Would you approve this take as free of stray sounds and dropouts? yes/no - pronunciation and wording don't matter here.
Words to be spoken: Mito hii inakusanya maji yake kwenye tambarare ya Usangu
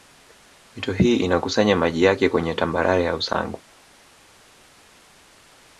yes